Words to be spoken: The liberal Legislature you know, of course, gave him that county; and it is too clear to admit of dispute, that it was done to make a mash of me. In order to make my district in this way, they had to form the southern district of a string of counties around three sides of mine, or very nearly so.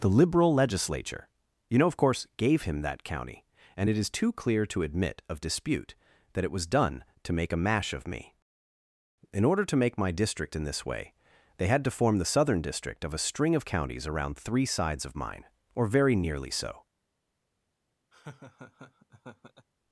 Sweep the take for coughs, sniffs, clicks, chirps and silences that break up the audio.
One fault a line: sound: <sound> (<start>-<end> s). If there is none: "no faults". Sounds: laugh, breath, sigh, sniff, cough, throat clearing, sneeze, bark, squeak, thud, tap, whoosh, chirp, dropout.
sound: laugh (18.1-19.7 s)